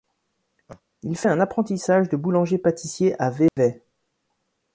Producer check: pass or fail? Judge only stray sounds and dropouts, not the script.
fail